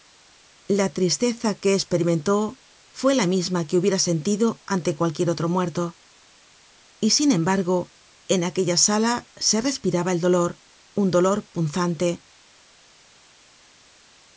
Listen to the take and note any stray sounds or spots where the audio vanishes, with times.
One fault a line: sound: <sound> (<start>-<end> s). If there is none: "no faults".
no faults